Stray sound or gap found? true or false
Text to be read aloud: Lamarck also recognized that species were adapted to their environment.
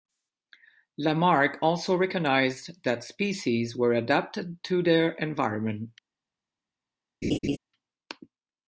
true